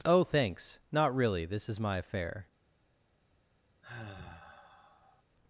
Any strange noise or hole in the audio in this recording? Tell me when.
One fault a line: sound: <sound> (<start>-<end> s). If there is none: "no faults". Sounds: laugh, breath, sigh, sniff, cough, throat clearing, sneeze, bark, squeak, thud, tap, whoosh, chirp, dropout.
sound: sigh (3.8-5.2 s)